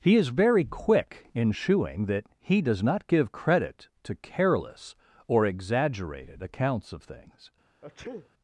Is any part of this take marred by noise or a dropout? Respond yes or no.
yes